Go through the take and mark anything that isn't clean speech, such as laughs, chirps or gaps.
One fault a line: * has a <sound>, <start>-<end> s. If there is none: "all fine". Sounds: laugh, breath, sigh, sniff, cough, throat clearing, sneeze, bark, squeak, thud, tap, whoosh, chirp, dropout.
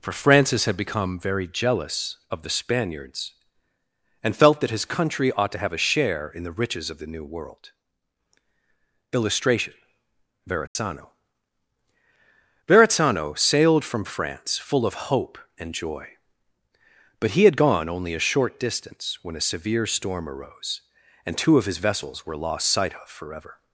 * has a dropout, 10.7-10.8 s